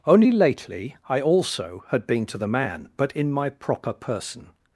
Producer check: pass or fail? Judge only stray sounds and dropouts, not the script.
pass